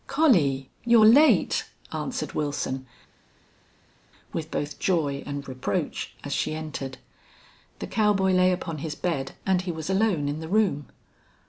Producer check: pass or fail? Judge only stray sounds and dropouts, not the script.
pass